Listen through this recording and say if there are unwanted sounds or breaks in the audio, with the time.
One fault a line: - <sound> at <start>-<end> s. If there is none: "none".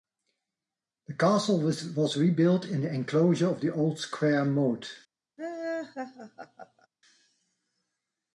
- laugh at 5.4-6.9 s